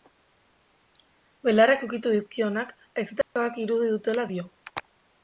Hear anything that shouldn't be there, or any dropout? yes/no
yes